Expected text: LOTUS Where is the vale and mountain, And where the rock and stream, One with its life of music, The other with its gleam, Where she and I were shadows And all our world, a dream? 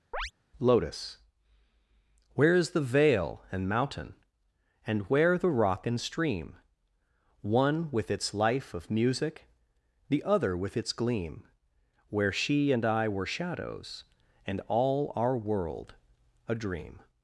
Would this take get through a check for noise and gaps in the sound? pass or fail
fail